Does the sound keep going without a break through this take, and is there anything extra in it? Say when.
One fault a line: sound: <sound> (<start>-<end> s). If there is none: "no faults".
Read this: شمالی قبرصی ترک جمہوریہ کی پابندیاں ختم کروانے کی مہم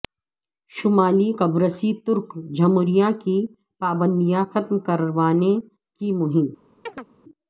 sound: chirp (6.9-7.1 s)